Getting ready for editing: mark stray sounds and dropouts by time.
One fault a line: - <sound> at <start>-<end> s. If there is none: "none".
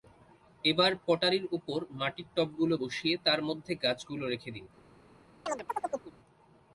- chirp at 5.5-6.1 s